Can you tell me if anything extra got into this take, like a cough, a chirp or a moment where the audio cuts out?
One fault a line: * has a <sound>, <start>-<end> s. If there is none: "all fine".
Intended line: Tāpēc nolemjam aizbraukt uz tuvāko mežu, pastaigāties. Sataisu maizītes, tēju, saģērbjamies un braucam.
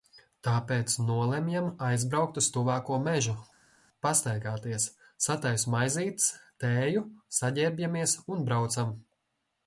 all fine